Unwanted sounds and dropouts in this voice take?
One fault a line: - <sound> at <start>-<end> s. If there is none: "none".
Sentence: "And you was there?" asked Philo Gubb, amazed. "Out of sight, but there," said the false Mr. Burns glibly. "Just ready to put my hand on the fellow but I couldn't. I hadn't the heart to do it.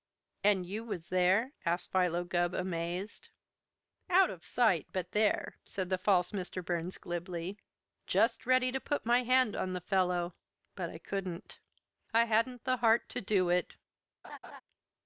- laugh at 14.2-14.6 s